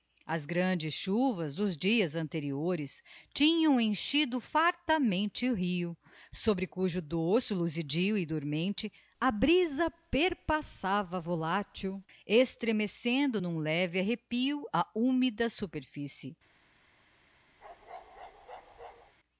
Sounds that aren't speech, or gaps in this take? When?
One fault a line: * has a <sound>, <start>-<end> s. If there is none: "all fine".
* has a bark, 17.6-19.1 s